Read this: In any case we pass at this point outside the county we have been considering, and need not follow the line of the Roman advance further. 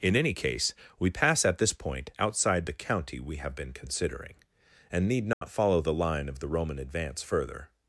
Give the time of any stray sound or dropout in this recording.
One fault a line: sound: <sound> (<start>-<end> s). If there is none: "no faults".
sound: dropout (5.3-5.4 s)